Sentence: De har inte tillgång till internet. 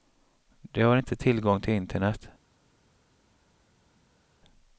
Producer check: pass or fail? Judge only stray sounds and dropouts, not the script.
pass